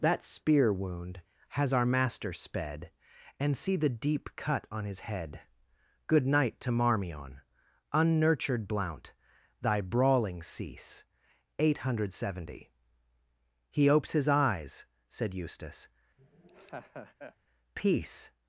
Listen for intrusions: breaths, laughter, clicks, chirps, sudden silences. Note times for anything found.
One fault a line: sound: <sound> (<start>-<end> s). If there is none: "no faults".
sound: laugh (16.2-17.4 s)